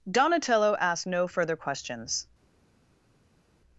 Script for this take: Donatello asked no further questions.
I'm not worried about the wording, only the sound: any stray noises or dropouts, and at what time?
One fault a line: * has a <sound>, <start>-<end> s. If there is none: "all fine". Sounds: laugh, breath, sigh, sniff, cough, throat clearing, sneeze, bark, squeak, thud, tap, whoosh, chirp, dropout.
all fine